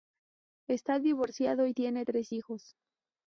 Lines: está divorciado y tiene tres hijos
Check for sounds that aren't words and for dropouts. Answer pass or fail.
pass